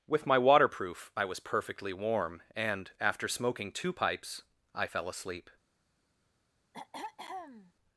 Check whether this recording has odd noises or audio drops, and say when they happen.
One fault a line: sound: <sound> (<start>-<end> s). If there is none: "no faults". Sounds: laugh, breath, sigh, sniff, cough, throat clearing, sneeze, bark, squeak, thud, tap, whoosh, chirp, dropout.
sound: throat clearing (6.7-7.7 s)